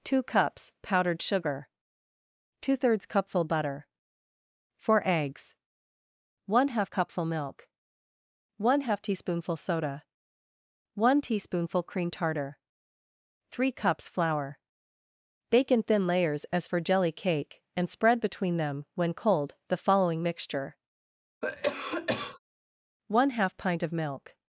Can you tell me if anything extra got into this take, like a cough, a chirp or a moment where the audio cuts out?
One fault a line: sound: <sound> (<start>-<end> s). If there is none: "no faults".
sound: cough (21.4-22.4 s)